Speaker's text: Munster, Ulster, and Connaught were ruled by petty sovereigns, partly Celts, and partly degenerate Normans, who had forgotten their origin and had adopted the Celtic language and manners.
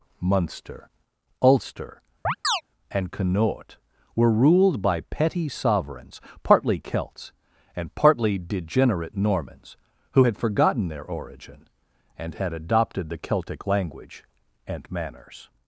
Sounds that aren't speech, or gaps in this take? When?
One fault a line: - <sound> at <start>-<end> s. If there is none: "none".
- chirp at 2.2-2.6 s